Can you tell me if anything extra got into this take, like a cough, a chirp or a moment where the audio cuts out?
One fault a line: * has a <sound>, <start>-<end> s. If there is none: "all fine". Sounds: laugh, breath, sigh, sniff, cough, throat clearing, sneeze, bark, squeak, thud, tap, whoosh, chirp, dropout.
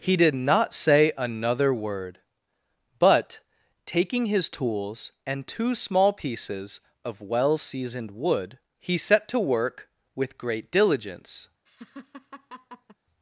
* has a laugh, 11.7-13.0 s